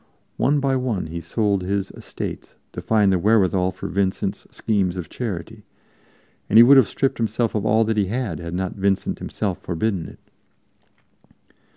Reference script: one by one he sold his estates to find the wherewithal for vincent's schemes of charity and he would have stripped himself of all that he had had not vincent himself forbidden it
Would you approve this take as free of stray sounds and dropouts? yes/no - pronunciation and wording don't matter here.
yes